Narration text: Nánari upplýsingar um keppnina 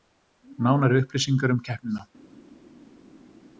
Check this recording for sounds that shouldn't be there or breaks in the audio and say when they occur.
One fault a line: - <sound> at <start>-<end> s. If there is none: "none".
none